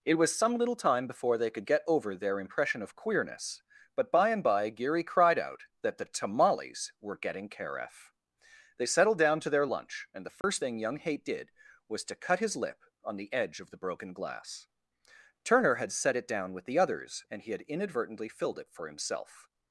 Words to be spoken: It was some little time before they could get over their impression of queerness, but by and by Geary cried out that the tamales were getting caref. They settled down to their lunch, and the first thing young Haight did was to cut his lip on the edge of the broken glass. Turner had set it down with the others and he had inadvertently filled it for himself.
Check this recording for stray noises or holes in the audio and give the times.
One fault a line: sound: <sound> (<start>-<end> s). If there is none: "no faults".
sound: dropout (10.4-10.4 s)